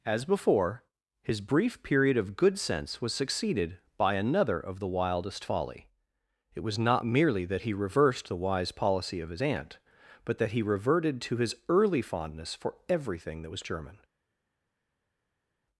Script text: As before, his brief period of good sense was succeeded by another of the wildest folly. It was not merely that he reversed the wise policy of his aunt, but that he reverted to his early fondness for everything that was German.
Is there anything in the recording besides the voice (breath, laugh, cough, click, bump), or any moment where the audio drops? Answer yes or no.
no